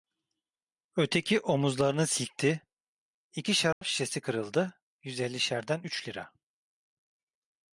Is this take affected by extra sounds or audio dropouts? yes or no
yes